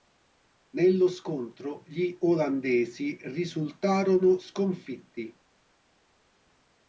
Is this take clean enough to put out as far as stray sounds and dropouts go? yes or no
yes